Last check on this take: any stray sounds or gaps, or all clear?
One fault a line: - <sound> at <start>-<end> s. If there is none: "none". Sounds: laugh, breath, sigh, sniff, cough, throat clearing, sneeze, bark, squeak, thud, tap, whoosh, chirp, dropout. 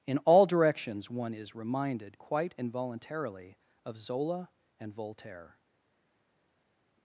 none